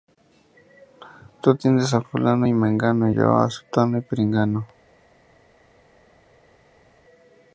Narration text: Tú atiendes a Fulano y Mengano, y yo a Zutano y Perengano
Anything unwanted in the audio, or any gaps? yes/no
no